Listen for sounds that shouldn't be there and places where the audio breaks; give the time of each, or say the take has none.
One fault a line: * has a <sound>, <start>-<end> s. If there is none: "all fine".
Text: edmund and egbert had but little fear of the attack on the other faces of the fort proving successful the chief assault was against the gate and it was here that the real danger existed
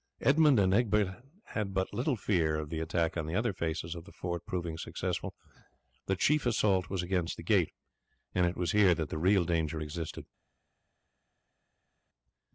all fine